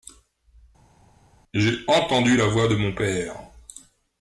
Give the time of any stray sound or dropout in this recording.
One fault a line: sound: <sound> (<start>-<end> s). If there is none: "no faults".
no faults